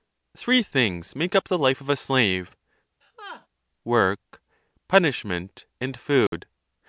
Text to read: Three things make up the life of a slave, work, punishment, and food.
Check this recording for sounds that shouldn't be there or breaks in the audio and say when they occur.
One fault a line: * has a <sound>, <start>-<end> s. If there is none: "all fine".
* has a laugh, 3.0-3.5 s
* has a dropout, 6.3-6.3 s